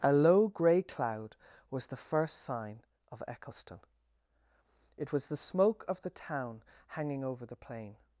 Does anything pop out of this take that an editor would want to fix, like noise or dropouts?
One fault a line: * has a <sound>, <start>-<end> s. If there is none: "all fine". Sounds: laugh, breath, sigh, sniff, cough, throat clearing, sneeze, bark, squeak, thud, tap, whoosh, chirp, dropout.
all fine